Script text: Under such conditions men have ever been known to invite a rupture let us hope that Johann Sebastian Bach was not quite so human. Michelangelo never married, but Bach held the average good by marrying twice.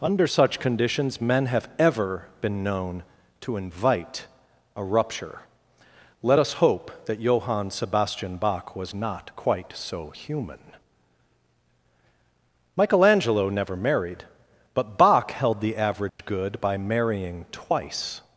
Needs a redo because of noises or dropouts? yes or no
yes